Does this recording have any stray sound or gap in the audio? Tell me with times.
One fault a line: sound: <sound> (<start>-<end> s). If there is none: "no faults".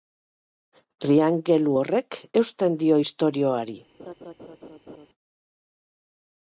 sound: laugh (4.0-5.1 s)